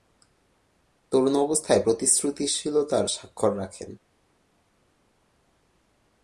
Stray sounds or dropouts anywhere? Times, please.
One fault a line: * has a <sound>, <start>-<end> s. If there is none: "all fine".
all fine